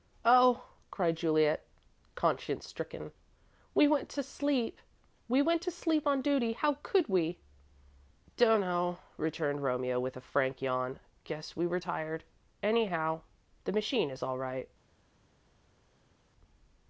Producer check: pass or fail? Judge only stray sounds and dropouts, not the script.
pass